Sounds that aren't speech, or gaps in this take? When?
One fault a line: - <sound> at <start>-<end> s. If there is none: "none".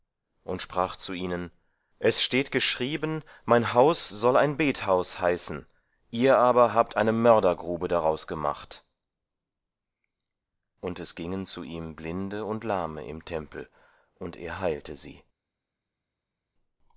none